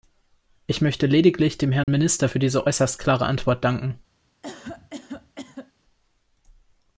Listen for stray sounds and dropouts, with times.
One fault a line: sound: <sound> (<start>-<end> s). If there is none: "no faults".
sound: dropout (1.8-1.9 s)
sound: cough (4.4-5.7 s)